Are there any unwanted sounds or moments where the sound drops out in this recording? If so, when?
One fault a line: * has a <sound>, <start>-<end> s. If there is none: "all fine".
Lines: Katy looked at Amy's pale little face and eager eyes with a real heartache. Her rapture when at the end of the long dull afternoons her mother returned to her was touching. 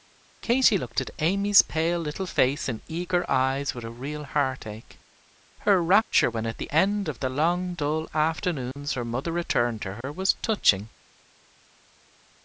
* has a dropout, 8.7-8.8 s
* has a dropout, 10.0-10.0 s